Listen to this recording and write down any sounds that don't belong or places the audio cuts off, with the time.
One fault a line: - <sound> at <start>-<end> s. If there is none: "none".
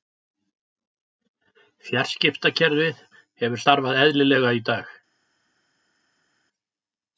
none